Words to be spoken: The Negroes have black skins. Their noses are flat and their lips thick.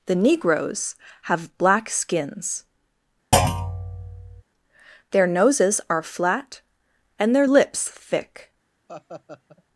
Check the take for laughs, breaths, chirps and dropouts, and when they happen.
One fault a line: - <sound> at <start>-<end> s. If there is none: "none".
- thud at 3.3-4.4 s
- laugh at 8.9-9.6 s